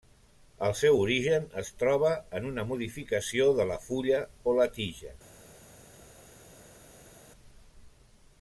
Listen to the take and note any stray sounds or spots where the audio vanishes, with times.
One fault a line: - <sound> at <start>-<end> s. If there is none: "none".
none